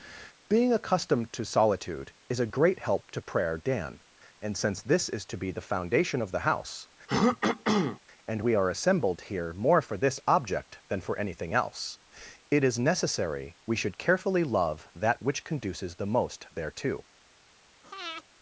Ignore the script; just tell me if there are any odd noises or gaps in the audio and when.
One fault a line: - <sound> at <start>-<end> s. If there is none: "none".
- throat clearing at 7.1-8.0 s
- breath at 17.8-18.2 s